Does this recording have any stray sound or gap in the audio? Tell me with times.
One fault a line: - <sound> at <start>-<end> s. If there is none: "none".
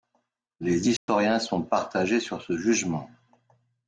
- dropout at 1.0-1.1 s